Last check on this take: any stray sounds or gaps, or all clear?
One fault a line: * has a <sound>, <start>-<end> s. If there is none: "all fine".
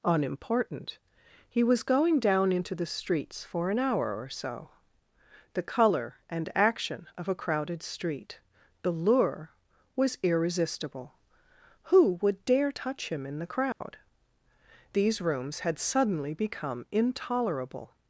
* has a dropout, 13.7-13.8 s